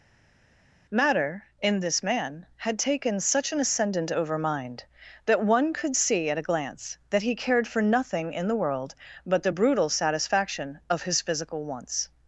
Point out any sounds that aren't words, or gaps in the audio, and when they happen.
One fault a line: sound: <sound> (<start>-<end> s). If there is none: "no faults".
no faults